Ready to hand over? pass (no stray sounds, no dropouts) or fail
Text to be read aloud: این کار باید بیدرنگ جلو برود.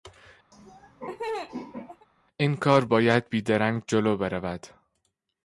fail